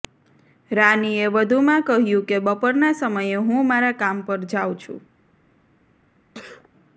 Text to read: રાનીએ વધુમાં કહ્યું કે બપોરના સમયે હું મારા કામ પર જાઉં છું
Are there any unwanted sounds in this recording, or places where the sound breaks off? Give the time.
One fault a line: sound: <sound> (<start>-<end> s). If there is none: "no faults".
sound: sneeze (6.3-6.7 s)